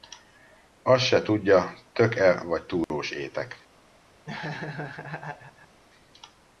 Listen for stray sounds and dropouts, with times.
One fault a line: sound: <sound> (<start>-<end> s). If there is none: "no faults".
sound: dropout (2.8-2.9 s)
sound: laugh (4.2-5.8 s)